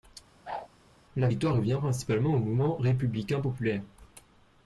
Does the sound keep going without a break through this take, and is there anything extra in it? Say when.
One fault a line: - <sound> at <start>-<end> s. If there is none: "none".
- whoosh at 0.4-0.7 s